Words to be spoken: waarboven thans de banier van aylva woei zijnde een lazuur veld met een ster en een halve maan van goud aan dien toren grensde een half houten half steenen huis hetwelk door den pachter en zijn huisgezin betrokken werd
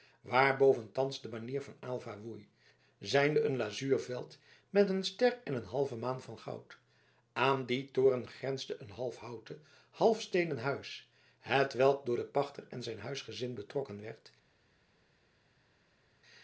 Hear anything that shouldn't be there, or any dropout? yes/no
no